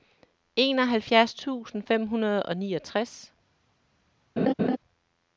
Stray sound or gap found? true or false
true